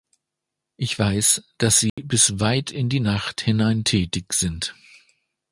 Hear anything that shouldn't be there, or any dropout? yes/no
yes